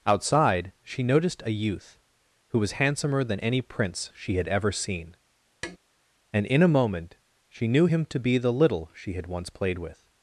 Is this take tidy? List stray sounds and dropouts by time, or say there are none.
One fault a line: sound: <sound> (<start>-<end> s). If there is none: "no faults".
sound: tap (5.6-5.8 s)